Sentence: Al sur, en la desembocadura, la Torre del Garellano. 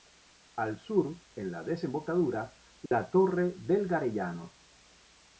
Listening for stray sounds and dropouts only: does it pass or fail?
fail